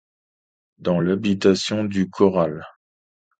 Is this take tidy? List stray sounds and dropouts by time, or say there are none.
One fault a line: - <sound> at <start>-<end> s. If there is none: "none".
none